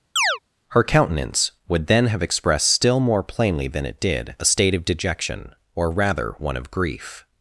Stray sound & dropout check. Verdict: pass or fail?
fail